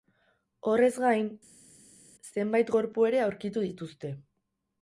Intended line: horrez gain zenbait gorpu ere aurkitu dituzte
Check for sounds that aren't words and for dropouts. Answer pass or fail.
pass